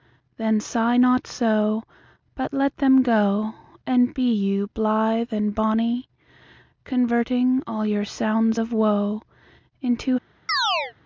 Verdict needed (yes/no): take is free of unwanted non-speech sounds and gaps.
no